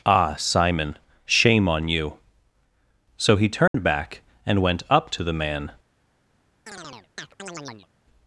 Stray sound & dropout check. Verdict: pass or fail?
fail